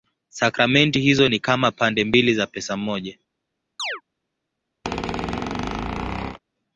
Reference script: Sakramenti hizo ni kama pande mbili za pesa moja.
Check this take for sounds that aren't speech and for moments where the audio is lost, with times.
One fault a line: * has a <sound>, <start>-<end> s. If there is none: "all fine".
* has a chirp, 3.8-4.0 s
* has a squeak, 4.8-6.4 s